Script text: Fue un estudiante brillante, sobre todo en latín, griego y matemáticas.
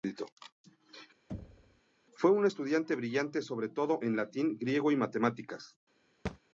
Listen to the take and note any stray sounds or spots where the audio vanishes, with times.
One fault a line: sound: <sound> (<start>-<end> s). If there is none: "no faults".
sound: thud (1.3-1.8 s)
sound: thud (6.3-6.4 s)